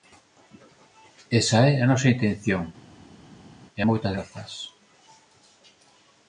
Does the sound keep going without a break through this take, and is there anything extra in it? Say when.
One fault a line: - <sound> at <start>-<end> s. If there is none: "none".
none